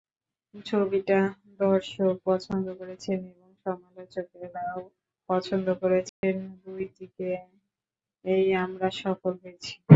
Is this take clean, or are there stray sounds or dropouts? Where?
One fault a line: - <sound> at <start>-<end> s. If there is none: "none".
- dropout at 6.1-6.2 s